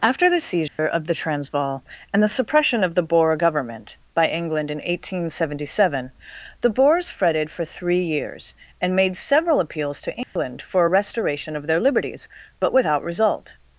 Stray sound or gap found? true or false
true